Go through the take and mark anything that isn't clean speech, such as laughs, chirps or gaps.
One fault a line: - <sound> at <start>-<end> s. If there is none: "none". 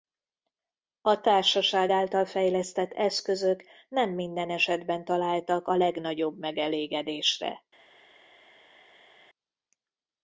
none